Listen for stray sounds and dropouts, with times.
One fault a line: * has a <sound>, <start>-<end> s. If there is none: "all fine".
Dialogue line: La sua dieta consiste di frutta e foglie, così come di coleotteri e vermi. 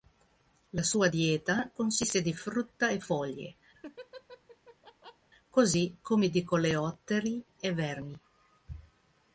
* has a laugh, 3.7-5.3 s